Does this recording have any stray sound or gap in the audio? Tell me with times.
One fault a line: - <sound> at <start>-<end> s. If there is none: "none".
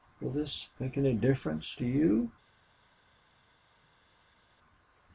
none